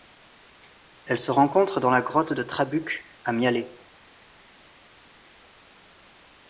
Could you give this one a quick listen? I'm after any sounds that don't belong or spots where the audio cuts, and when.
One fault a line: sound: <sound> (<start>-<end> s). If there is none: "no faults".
no faults